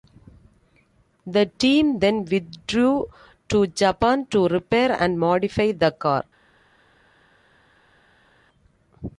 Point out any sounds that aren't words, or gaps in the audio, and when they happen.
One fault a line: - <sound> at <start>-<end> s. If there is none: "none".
none